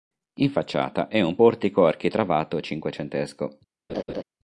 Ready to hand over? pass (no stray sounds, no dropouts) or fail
fail